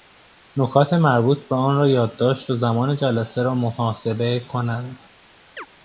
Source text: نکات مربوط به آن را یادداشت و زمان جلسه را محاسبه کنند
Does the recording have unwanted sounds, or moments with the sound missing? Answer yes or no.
yes